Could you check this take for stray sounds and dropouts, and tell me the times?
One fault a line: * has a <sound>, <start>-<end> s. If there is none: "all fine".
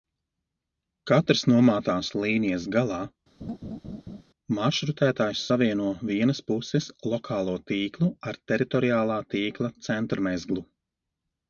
* has a laugh, 3.4-4.2 s